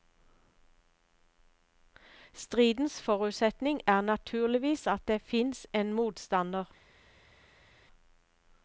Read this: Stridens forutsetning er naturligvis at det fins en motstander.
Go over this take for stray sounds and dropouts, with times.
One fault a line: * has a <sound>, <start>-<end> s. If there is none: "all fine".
all fine